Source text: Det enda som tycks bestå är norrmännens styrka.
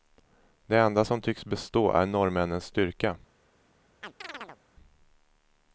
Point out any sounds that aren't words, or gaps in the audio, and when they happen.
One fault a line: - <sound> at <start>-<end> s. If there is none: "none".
- chirp at 4.0-4.6 s